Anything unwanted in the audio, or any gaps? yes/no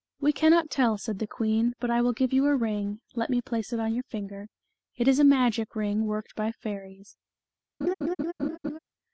yes